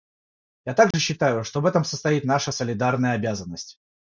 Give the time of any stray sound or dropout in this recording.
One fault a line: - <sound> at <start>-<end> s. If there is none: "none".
- dropout at 0.9-0.9 s